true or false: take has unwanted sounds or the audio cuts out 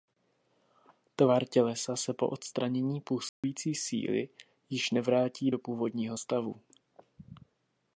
true